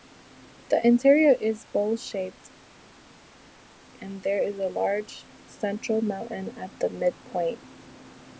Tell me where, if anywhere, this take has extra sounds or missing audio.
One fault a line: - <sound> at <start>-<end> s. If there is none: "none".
none